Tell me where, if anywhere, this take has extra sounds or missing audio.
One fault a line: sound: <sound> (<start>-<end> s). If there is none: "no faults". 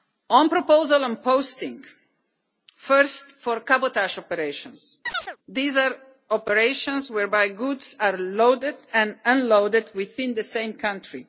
sound: chirp (5.0-5.4 s)